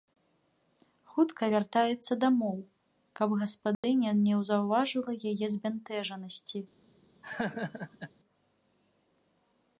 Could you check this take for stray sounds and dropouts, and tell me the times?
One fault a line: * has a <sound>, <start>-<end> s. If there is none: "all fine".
* has a dropout, 3.7-3.8 s
* has a laugh, 7.2-8.1 s